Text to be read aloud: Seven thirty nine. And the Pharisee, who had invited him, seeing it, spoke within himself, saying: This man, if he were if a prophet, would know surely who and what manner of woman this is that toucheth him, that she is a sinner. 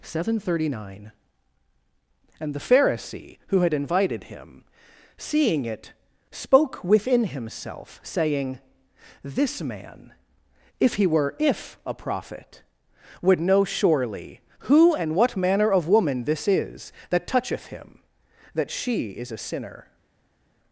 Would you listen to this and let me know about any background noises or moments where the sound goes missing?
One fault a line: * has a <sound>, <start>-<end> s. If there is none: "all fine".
all fine